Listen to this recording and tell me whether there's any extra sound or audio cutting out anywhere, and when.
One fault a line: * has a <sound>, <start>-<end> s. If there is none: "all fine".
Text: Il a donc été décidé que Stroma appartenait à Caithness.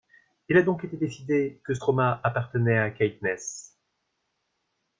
all fine